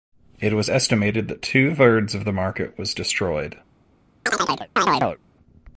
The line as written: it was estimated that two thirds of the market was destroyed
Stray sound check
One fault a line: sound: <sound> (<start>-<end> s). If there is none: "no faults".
sound: chirp (4.3-5.2 s)